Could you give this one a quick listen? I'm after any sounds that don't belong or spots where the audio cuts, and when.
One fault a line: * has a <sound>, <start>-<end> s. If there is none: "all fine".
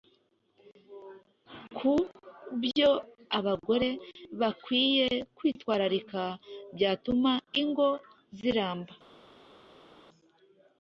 all fine